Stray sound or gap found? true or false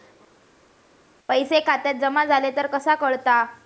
false